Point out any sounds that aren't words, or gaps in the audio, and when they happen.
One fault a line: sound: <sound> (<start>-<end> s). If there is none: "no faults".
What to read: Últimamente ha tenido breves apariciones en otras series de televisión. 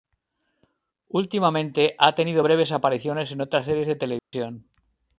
sound: dropout (4.2-4.3 s)